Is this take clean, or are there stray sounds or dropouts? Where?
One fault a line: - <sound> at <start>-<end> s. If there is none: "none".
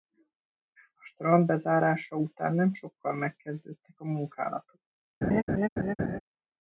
- laugh at 5.2-6.2 s